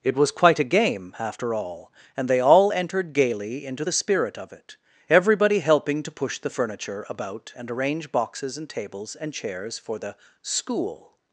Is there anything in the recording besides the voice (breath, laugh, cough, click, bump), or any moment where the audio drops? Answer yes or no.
no